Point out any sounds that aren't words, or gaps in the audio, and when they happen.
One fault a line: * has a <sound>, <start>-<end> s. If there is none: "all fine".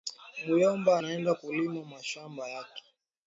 all fine